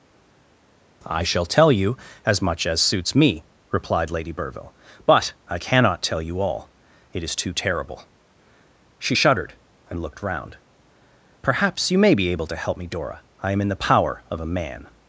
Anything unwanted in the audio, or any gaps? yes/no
no